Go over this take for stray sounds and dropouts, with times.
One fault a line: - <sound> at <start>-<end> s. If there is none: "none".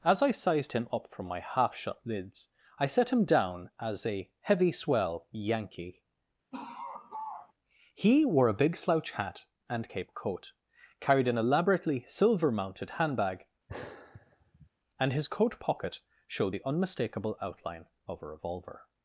- laugh at 6.5-7.5 s
- sigh at 13.7-14.7 s